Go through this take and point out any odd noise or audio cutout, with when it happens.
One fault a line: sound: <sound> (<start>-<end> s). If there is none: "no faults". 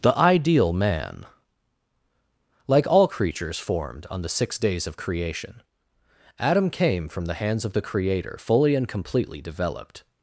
no faults